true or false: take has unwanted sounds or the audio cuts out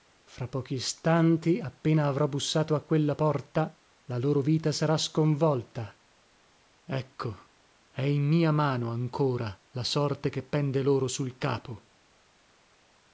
false